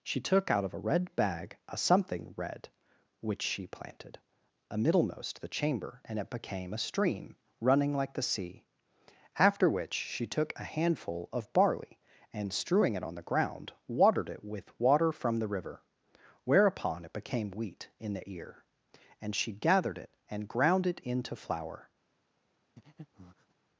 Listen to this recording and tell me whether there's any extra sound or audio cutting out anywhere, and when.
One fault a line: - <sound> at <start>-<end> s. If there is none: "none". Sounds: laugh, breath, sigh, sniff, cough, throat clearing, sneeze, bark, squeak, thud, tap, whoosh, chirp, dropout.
- breath at 22.8-23.5 s